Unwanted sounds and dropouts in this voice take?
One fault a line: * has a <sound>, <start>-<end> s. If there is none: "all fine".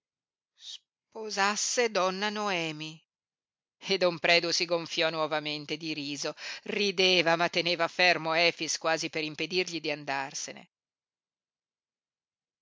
all fine